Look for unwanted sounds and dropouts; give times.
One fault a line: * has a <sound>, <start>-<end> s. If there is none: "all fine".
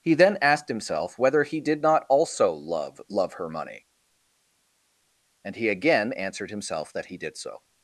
all fine